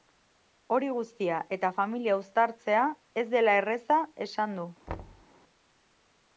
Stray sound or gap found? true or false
true